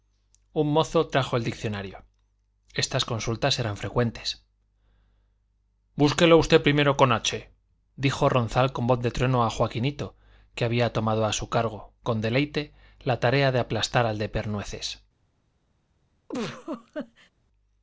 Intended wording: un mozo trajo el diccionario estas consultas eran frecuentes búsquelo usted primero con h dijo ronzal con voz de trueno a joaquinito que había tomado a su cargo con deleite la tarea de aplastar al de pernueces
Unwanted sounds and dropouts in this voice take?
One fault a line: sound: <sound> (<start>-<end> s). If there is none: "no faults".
sound: laugh (16.3-17.3 s)